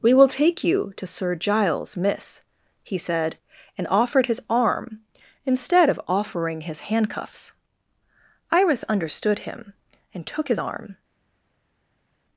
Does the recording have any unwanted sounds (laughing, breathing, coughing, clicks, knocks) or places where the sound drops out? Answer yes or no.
no